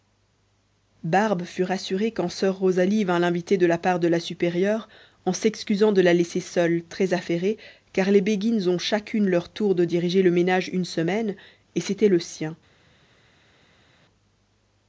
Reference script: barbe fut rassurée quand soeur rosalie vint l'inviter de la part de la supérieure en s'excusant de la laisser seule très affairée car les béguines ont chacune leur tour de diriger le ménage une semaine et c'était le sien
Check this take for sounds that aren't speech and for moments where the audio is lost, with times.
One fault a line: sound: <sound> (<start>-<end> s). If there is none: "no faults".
no faults